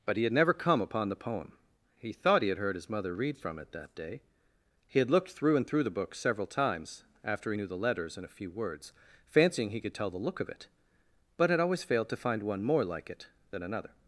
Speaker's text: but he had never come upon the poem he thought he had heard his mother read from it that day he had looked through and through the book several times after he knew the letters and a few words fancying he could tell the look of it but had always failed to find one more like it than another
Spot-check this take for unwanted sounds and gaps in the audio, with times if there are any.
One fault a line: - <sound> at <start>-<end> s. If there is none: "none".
none